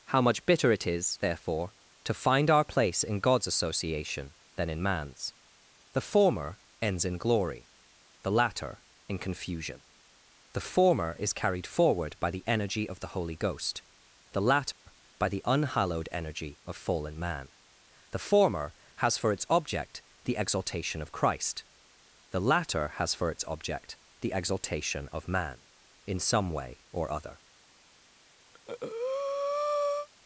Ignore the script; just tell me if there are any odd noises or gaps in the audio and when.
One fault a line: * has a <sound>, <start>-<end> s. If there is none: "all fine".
* has a dropout, 14.7-14.9 s
* has a breath, 28.5-30.1 s